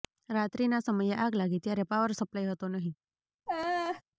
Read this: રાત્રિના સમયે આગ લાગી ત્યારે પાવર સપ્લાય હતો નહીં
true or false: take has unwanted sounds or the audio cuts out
true